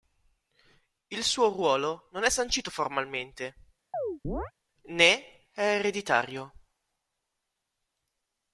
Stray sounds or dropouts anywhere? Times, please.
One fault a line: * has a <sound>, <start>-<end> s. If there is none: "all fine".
* has a chirp, 3.9-4.5 s